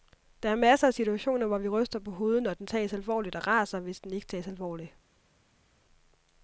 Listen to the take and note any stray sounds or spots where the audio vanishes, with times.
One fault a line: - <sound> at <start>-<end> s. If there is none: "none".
none